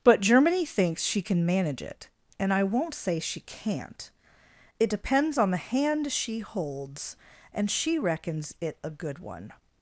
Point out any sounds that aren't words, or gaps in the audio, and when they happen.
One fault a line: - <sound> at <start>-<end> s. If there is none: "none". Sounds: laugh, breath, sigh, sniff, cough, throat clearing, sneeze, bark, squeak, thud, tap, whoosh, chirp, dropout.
none